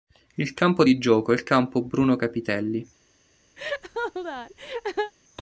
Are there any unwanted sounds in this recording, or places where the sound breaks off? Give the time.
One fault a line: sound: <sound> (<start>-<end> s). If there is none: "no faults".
sound: laugh (3.6-5.1 s)